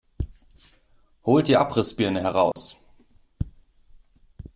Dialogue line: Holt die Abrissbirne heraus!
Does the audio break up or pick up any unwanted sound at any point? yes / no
yes